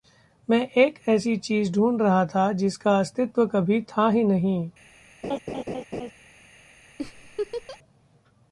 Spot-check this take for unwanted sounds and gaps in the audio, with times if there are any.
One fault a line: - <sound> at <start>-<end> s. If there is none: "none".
- laugh at 5.2-6.1 s
- laugh at 7.0-7.8 s